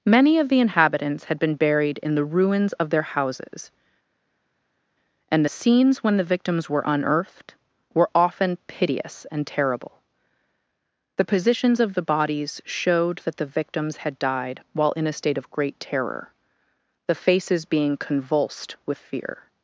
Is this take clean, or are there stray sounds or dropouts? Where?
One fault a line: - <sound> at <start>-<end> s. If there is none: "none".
none